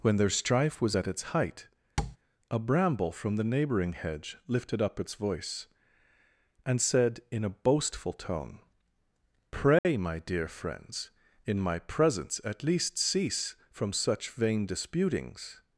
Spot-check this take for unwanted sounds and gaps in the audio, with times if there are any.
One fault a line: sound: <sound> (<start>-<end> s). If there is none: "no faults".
sound: tap (2.0-2.2 s)
sound: dropout (9.8-9.9 s)